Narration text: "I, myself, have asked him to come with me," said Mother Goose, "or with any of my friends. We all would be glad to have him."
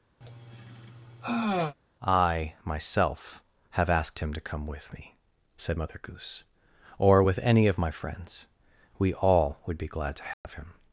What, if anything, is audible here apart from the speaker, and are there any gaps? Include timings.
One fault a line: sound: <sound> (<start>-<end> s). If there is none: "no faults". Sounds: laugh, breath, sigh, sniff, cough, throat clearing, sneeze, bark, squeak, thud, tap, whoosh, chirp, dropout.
sound: sigh (0.2-1.7 s)
sound: dropout (10.3-10.4 s)